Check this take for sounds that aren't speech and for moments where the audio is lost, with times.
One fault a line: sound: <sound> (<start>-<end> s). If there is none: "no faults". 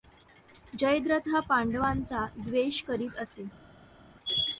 no faults